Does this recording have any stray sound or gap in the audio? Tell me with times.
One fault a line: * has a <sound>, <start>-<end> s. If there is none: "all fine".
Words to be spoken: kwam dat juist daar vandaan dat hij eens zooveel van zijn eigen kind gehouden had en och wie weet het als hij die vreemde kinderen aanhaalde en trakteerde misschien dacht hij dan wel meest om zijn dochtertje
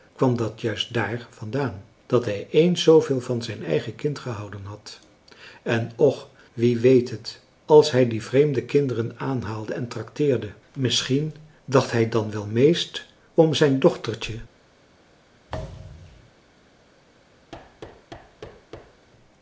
* has a thud, 15.5-16.3 s
* has a thud, 17.5-19.1 s